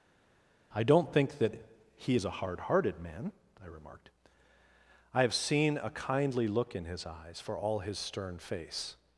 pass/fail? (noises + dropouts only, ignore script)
pass